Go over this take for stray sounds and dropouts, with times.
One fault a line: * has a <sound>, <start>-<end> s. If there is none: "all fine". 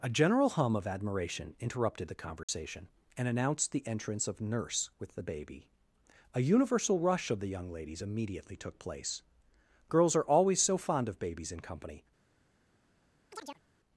* has a dropout, 2.4-2.5 s
* has a chirp, 13.3-13.6 s